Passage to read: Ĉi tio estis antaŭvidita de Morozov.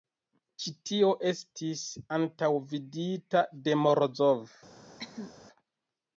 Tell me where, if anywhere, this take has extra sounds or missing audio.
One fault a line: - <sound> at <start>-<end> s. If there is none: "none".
- cough at 5.0-5.3 s